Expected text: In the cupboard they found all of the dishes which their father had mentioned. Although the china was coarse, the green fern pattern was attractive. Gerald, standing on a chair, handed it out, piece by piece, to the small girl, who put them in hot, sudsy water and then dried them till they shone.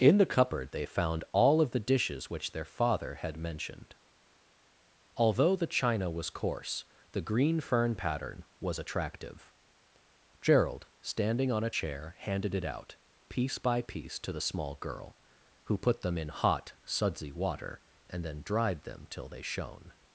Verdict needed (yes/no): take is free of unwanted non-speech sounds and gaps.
yes